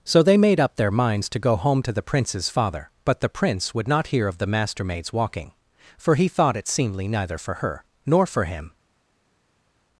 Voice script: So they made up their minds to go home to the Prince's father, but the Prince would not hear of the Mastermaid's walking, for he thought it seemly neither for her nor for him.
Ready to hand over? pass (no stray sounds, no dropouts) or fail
pass